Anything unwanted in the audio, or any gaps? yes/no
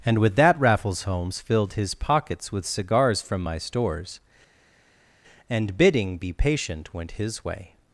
no